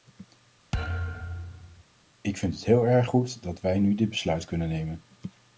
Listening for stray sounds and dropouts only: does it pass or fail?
fail